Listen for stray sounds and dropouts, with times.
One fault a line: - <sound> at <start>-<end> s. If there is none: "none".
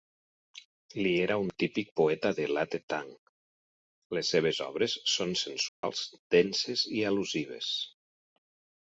- dropout at 5.7-5.8 s